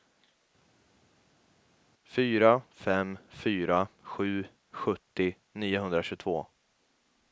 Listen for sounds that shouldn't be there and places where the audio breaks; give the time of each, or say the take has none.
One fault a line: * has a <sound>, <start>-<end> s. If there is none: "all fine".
all fine